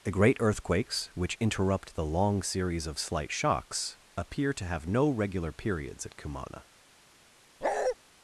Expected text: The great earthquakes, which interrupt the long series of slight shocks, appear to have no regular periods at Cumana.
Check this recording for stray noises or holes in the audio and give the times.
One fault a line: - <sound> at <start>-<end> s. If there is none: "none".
- bark at 7.6-8.0 s